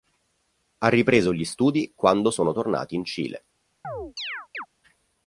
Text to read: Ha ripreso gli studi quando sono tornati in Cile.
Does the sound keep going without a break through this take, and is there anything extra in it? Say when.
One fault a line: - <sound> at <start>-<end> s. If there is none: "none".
- chirp at 3.8-4.7 s